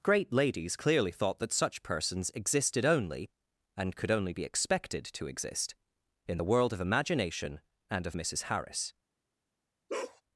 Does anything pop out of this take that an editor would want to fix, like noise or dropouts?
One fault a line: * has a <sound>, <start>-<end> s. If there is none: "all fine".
* has a bark, 9.9-10.2 s